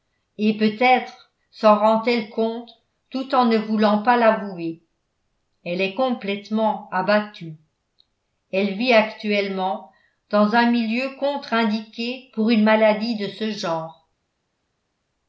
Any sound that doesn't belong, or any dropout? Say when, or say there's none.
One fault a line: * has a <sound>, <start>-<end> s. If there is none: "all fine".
all fine